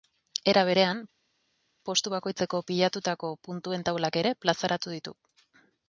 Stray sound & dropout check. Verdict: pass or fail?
pass